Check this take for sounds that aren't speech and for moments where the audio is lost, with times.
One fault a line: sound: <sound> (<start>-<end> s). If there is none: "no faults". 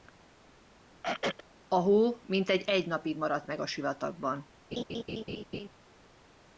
sound: throat clearing (1.0-1.4 s)
sound: laugh (4.7-5.7 s)